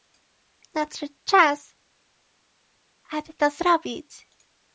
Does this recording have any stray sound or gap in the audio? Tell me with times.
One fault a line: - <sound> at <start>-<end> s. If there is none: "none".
none